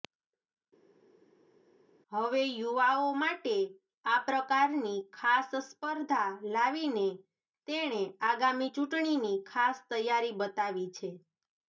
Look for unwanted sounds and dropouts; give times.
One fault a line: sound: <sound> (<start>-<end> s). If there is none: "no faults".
no faults